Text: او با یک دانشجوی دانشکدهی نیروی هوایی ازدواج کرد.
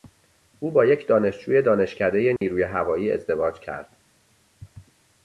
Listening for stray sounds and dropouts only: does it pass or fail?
fail